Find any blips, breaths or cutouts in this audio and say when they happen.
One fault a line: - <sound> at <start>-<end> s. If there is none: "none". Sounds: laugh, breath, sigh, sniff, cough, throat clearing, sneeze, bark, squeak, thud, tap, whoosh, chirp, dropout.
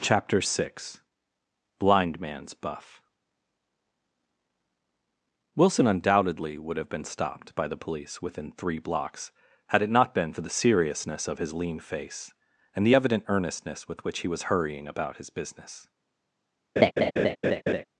- laugh at 16.8-17.8 s